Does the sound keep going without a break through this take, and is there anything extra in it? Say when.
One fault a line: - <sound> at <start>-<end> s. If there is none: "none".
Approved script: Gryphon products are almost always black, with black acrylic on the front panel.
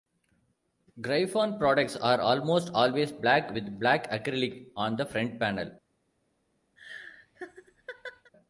- laugh at 6.8-8.3 s